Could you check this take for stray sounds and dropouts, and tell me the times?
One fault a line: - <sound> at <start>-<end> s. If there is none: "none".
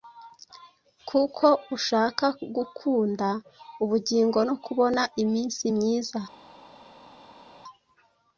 none